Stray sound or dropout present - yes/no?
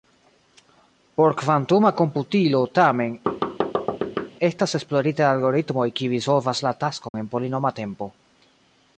yes